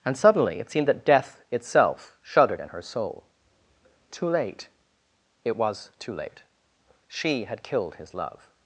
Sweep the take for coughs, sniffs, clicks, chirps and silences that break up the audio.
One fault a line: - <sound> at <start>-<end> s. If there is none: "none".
none